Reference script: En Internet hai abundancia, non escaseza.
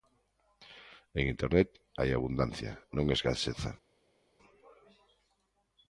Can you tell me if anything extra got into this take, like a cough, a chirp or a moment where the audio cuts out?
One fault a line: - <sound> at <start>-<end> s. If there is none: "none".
none